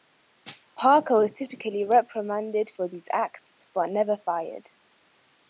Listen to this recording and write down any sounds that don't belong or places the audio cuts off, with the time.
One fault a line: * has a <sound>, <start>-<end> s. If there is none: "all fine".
all fine